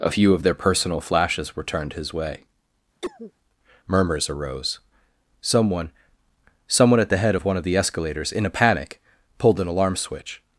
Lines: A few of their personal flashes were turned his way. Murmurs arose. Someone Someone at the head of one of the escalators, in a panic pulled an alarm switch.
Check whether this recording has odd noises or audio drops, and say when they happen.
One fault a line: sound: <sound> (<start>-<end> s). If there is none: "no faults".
sound: cough (3.0-3.3 s)